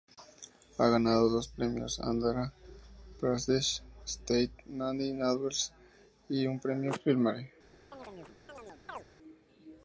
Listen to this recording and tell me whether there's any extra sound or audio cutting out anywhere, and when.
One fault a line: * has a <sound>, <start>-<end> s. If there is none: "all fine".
* has a chirp, 7.9-9.0 s